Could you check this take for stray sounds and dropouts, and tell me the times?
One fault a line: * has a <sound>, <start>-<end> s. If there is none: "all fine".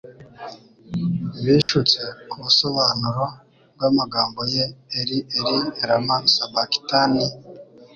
* has a dropout, 1.6-1.7 s